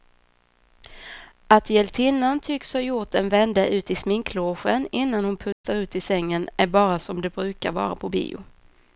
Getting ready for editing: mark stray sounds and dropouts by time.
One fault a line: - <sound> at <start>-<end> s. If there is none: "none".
- dropout at 5.5-5.6 s